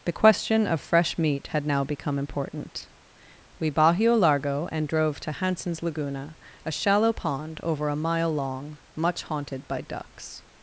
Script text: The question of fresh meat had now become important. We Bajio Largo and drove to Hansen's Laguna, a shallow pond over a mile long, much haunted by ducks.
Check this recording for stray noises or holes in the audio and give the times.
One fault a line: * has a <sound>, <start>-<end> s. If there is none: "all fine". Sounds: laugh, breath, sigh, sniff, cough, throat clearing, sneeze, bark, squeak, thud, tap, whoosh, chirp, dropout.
all fine